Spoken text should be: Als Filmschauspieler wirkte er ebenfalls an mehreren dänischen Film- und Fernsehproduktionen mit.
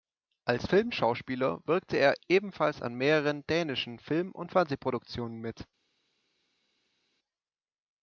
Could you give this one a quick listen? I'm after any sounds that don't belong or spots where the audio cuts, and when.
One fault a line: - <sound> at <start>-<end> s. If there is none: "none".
none